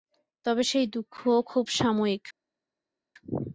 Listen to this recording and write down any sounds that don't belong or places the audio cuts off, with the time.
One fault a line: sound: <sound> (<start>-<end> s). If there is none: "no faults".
no faults